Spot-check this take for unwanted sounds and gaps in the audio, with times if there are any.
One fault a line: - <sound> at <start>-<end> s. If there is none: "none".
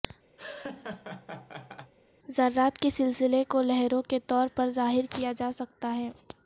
- laugh at 0.4-1.9 s